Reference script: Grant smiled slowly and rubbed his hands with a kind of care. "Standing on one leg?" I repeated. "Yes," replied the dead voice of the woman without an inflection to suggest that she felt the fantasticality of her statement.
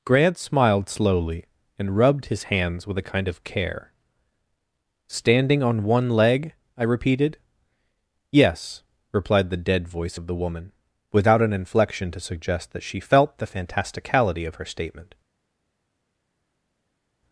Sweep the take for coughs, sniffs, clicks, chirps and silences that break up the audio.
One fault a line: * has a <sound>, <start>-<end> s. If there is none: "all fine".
all fine